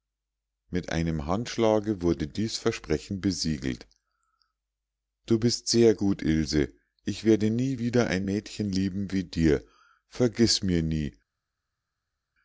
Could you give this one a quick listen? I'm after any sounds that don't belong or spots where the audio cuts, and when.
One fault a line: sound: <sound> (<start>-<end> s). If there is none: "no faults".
no faults